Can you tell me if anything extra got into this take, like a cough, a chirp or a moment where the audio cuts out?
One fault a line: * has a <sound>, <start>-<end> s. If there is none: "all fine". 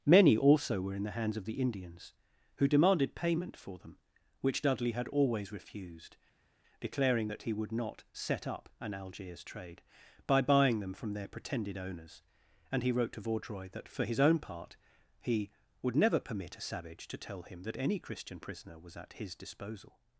all fine